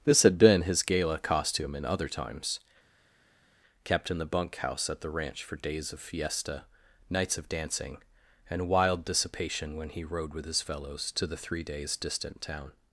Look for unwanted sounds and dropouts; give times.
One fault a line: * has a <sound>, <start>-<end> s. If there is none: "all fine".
all fine